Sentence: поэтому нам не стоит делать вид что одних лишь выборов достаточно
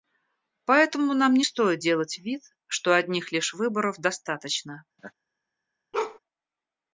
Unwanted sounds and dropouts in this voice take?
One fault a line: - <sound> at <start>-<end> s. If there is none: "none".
- laugh at 5.0-5.1 s
- bark at 5.9-6.2 s